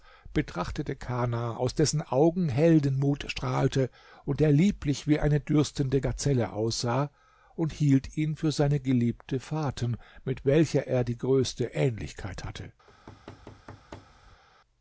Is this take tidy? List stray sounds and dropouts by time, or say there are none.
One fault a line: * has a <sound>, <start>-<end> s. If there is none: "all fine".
* has a thud, 12.9-14.4 s